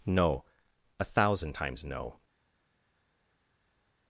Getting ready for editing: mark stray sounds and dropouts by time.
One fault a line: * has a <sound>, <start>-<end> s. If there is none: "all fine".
all fine